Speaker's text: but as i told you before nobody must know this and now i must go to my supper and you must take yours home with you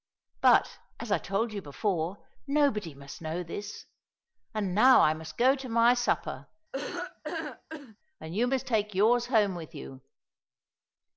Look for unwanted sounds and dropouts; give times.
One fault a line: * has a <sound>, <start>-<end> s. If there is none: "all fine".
* has a laugh, 6.7-8.0 s